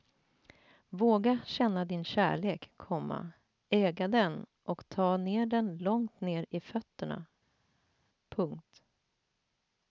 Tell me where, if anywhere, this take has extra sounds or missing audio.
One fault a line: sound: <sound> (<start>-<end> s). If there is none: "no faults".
no faults